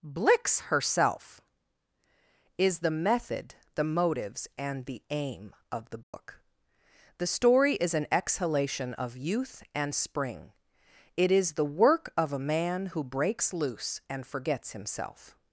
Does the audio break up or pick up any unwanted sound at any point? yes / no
yes